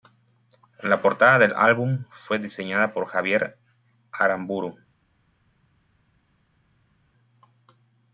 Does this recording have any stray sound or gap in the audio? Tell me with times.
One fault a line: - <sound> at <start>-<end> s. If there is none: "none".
none